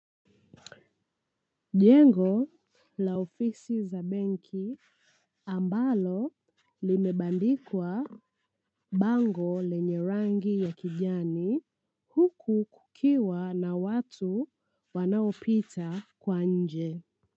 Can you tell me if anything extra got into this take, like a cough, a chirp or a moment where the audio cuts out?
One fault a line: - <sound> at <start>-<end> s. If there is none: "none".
none